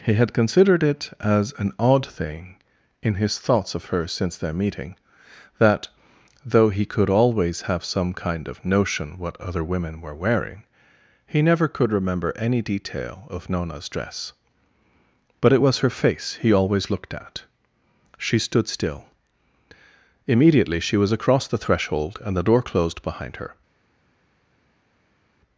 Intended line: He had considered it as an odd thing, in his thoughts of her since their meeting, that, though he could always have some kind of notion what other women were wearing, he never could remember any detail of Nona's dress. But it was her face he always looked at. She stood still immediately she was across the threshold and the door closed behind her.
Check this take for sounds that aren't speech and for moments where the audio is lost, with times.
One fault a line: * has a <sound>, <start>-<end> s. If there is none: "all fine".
all fine